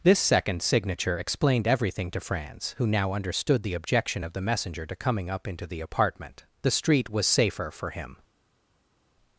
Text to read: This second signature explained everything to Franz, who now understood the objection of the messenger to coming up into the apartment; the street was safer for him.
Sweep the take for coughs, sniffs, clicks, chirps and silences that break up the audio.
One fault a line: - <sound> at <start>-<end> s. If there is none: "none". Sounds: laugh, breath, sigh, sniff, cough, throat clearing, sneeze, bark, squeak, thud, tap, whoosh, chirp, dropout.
none